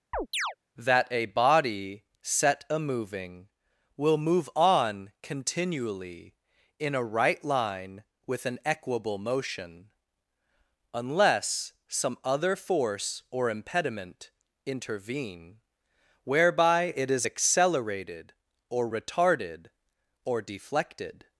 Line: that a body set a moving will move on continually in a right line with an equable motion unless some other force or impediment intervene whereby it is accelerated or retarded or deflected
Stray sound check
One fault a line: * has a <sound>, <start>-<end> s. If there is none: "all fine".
* has a chirp, 0.1-0.6 s